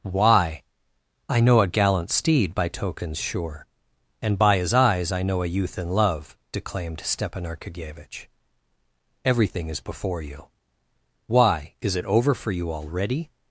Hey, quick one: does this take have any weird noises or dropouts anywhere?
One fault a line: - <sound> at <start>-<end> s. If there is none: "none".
none